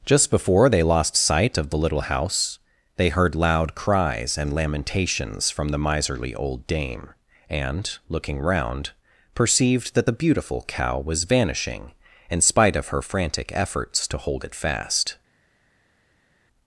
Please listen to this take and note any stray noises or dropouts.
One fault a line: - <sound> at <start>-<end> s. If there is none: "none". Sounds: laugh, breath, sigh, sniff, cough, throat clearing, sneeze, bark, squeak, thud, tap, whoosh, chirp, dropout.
none